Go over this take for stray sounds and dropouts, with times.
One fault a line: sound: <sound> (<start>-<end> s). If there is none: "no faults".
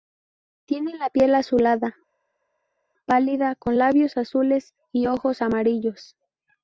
no faults